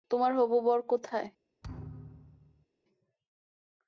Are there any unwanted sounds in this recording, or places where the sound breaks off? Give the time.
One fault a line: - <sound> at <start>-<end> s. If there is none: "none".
- thud at 1.6-2.7 s